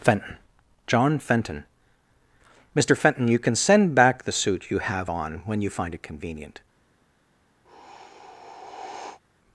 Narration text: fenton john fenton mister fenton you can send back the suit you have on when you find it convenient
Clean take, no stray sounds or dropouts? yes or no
no